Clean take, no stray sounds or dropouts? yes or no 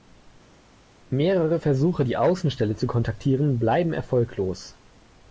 yes